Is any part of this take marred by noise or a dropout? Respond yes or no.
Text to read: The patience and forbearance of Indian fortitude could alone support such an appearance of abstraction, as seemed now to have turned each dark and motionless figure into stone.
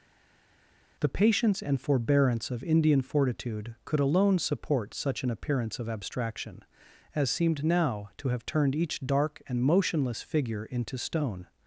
no